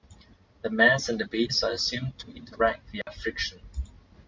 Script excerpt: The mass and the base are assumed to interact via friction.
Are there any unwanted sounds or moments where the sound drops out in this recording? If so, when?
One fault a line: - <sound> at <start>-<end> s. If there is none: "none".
- dropout at 3.0-3.1 s